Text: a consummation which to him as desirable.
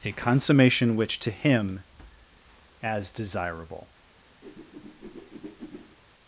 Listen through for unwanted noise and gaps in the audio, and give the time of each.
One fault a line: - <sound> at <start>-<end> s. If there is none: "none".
- whoosh at 4.4-6.0 s